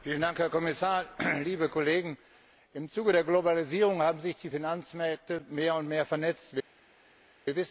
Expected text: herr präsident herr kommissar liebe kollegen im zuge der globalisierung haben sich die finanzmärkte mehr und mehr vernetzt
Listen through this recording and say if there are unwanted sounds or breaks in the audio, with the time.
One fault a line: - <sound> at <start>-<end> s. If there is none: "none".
none